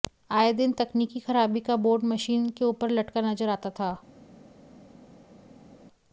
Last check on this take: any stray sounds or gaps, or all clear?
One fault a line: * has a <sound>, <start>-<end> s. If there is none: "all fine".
all fine